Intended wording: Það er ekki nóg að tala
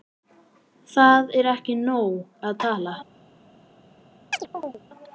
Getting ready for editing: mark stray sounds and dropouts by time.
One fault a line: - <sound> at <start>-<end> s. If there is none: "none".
- chirp at 4.3-4.8 s